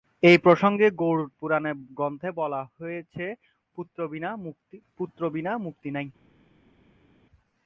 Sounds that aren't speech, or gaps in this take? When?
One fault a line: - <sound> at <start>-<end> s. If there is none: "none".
none